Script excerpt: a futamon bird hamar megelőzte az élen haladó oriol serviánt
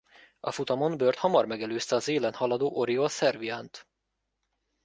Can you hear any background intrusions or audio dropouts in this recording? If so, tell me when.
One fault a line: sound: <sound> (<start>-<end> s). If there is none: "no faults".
no faults